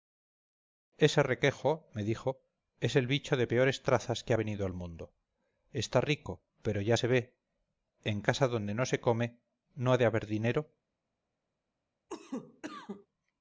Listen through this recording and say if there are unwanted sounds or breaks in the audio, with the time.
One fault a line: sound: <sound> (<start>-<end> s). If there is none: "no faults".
sound: cough (12.1-13.1 s)